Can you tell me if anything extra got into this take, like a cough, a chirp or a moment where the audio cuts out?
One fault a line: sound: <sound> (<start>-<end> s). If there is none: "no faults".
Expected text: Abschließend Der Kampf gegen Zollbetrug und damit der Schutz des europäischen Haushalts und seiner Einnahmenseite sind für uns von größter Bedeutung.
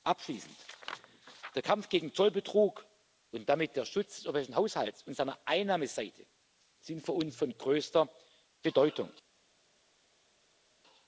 no faults